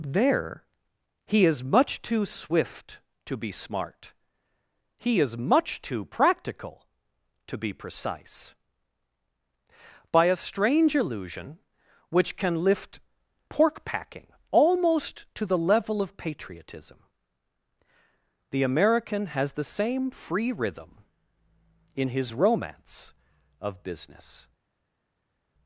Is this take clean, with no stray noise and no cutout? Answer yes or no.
yes